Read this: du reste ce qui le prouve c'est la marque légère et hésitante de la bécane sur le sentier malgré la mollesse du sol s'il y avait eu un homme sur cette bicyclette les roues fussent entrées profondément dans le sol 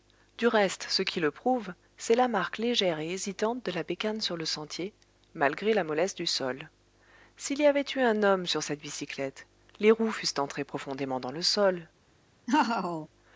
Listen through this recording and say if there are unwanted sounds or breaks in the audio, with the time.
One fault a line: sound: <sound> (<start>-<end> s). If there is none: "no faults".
sound: laugh (12.5-13.1 s)